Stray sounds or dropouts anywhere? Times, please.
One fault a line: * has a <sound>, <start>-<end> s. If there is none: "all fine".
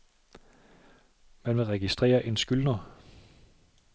all fine